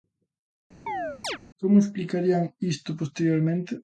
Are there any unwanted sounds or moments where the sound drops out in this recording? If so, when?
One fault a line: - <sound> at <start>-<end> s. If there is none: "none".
- chirp at 0.9-1.4 s